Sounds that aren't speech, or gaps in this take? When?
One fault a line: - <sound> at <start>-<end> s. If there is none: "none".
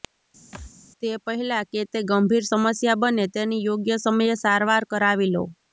- thud at 0.5-0.7 s